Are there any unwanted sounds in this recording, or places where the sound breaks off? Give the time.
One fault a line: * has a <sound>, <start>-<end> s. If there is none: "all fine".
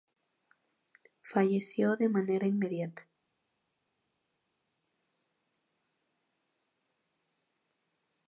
all fine